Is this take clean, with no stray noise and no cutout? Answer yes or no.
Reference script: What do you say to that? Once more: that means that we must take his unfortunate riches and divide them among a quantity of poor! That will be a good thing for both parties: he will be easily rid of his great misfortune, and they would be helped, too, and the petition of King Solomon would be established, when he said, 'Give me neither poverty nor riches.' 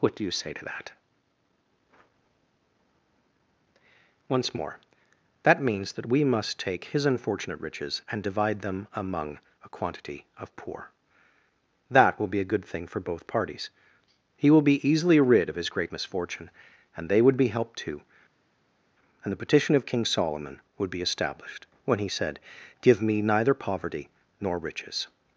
yes